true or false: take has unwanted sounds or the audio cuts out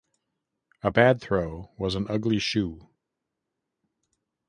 false